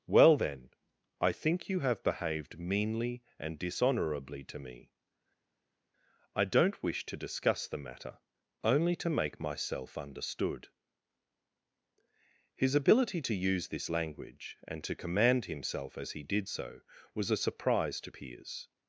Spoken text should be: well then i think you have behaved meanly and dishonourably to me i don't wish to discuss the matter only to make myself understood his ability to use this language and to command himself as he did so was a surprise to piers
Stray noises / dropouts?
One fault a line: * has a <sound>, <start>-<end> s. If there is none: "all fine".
all fine